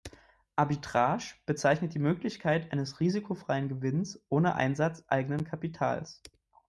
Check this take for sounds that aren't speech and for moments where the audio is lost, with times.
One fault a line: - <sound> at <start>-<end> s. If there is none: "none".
none